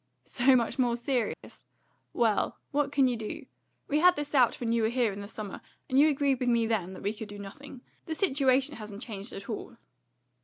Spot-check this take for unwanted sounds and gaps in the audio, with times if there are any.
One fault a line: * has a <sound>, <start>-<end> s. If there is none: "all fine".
* has a dropout, 1.3-1.4 s